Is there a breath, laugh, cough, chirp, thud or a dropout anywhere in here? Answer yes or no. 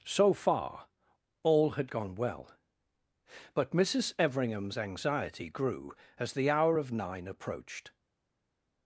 no